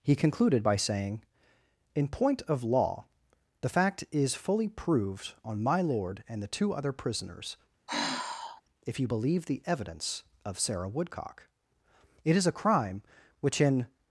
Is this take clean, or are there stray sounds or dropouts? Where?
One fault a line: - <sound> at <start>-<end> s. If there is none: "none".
- sigh at 7.9-8.6 s